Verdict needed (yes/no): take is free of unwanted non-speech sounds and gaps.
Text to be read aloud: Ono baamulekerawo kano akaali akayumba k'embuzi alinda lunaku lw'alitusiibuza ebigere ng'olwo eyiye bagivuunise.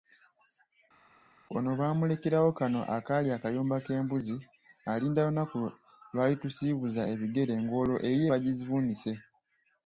yes